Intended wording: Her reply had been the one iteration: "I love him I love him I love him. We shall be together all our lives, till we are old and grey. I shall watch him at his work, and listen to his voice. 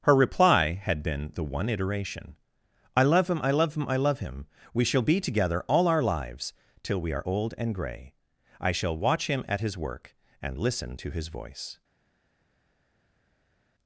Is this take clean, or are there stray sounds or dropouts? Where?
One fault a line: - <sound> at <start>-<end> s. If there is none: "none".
none